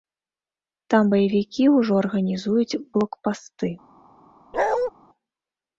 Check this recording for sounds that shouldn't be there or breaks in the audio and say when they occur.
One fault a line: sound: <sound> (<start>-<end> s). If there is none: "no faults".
sound: bark (4.5-4.9 s)